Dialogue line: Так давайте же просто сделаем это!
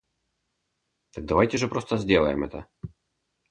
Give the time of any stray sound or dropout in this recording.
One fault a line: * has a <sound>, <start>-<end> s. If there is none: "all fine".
all fine